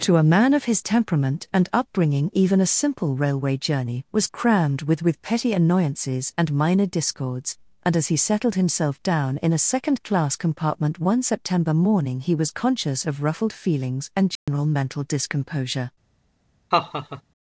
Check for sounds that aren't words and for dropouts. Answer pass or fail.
fail